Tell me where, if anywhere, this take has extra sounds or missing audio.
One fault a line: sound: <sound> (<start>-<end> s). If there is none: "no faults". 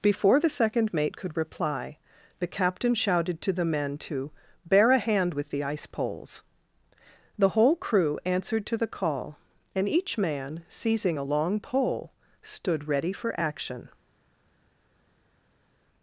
no faults